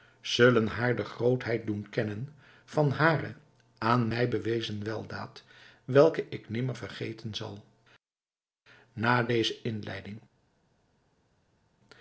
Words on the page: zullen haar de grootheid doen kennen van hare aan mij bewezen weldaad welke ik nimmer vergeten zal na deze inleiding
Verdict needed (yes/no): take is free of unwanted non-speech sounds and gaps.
yes